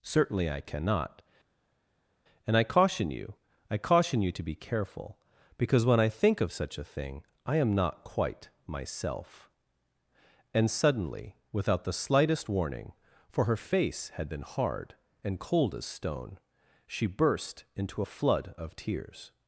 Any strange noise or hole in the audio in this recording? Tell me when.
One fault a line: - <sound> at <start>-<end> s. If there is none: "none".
none